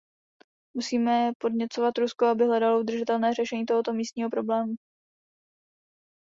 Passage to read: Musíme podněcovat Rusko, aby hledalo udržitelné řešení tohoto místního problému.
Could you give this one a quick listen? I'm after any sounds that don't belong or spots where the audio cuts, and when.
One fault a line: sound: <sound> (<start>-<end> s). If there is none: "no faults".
no faults